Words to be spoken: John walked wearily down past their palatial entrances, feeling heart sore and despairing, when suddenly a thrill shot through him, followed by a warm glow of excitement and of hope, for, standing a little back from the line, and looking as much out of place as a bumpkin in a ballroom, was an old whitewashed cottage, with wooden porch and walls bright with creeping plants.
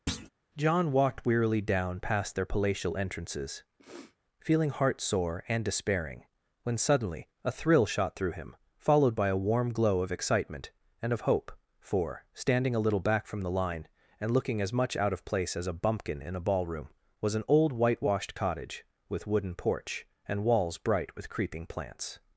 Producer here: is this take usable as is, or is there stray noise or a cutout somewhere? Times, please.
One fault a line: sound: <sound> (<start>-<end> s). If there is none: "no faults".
sound: thud (0.1-0.3 s)
sound: sniff (3.8-4.2 s)